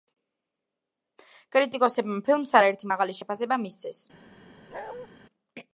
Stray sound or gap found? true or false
true